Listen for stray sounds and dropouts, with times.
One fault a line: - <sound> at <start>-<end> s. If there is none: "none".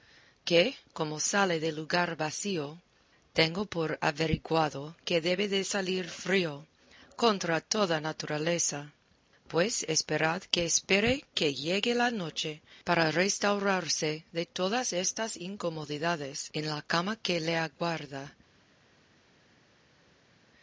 none